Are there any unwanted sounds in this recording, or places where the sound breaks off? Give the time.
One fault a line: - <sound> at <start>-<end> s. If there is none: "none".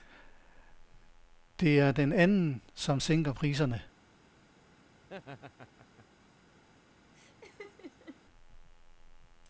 - laugh at 5.0-6.1 s
- laugh at 7.1-8.2 s